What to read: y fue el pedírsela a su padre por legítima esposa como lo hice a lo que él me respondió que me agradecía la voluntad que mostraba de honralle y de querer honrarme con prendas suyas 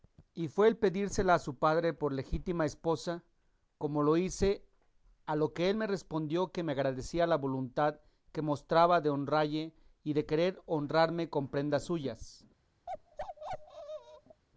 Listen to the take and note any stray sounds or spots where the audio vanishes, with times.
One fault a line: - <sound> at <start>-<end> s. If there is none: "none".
- bark at 12.9-14.4 s